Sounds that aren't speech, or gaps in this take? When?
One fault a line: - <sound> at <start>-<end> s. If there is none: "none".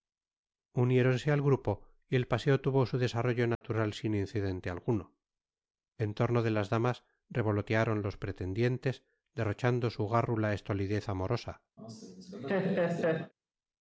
- dropout at 3.5-3.6 s
- laugh at 11.8-13.3 s